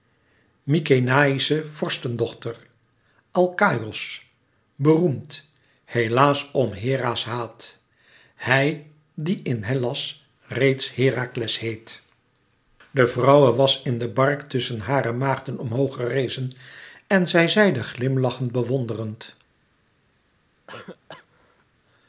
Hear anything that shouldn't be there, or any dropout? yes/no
yes